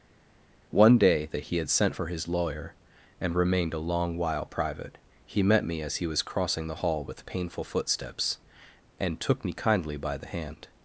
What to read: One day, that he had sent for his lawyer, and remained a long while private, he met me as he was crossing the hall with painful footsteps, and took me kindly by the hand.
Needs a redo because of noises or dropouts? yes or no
no